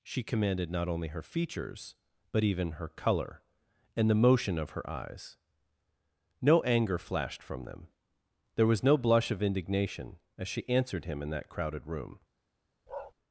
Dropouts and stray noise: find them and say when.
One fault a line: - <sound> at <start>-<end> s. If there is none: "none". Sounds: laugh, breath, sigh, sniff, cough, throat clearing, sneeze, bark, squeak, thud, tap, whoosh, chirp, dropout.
- bark at 12.9-13.1 s